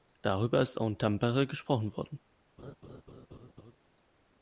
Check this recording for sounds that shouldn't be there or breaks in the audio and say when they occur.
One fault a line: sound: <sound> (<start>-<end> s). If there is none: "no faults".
sound: laugh (2.6-3.8 s)